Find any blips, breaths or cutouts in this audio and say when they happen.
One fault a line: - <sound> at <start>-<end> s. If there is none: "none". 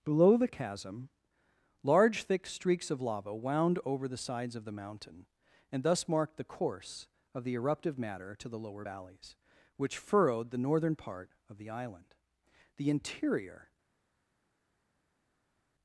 none